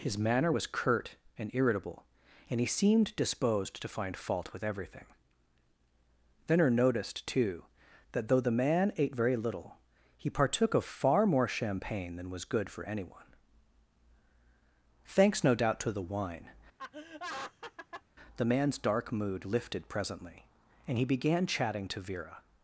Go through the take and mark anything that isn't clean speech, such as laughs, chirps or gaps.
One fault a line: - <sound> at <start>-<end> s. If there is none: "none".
- laugh at 16.8-18.0 s